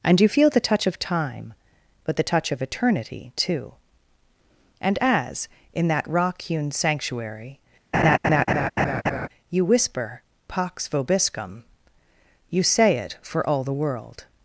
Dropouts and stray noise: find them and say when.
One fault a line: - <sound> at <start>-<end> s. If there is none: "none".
- laugh at 7.9-9.3 s